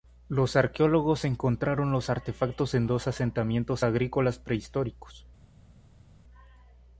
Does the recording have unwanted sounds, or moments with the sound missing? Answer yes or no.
no